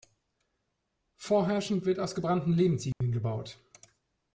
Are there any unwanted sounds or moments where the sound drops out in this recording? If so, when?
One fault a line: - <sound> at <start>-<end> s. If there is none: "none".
- dropout at 2.9-3.0 s